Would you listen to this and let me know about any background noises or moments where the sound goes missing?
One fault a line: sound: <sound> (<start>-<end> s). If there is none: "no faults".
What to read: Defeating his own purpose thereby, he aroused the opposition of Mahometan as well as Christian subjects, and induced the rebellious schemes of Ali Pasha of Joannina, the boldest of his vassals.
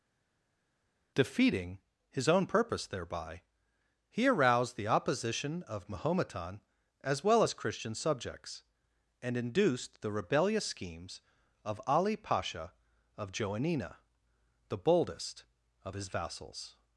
no faults